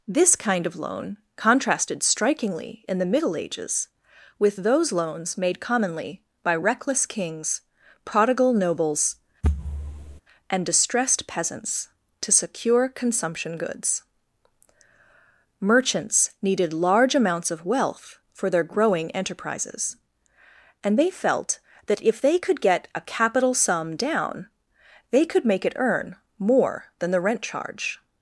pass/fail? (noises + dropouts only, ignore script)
fail